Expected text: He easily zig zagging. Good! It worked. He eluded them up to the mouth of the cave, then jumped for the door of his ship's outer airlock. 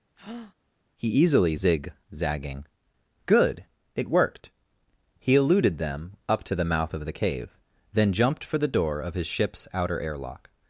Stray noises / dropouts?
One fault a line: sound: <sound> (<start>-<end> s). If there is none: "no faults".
sound: breath (0.2-0.5 s)